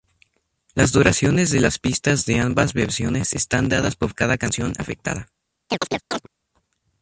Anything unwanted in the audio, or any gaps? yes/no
yes